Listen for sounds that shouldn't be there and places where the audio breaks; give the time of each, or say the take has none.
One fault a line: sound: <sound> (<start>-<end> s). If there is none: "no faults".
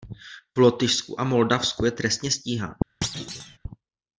sound: thud (3.0-3.6 s)